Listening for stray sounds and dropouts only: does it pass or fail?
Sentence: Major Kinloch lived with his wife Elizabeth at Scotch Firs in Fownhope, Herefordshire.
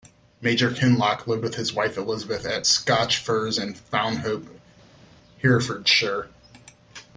pass